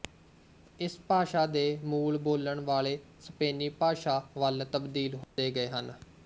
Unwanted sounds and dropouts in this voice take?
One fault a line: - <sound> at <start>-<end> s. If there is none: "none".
- dropout at 5.2-5.4 s